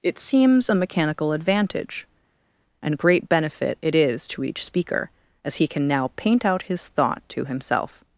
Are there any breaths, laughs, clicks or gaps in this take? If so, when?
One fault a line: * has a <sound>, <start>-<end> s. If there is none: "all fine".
all fine